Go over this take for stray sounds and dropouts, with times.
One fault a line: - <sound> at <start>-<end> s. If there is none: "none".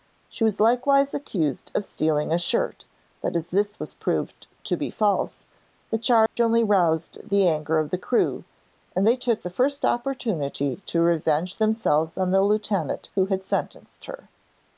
- dropout at 6.3-6.4 s